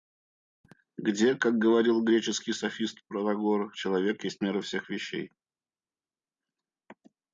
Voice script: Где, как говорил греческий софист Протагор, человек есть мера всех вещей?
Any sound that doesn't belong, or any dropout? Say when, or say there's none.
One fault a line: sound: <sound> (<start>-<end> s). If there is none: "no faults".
no faults